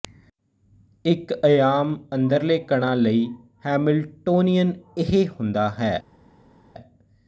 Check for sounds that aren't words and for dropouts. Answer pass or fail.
pass